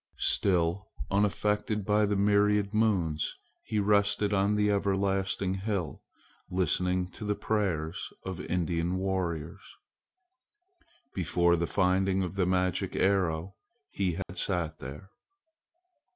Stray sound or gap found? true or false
true